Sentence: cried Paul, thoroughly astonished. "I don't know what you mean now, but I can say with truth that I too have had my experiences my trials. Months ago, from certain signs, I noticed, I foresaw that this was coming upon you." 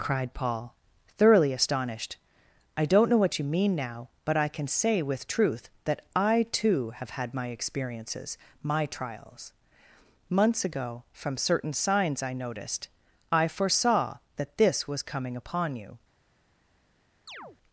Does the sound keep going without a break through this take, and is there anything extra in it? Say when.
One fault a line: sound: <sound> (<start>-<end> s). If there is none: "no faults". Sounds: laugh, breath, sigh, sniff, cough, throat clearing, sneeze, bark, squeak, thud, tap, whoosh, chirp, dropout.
sound: chirp (17.3-17.6 s)